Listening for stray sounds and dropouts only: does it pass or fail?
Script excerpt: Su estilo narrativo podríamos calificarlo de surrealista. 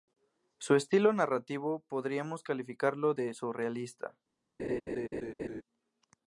fail